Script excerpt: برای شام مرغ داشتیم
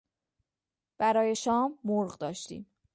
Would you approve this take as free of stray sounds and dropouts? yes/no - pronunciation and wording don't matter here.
yes